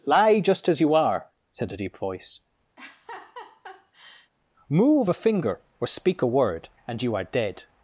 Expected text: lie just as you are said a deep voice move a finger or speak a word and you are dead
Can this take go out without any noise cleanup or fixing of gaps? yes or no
no